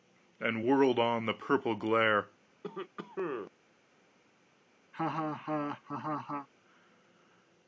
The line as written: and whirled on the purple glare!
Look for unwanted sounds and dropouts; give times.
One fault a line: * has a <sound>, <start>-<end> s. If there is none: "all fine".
* has a cough, 2.6-3.5 s
* has a laugh, 4.9-6.5 s